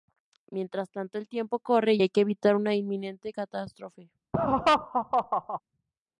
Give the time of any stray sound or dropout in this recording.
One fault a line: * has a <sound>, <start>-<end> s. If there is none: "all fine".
* has a laugh, 4.3-5.6 s